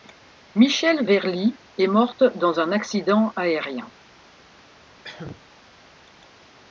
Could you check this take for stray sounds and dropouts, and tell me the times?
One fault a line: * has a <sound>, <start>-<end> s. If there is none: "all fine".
* has a cough, 5.0-5.4 s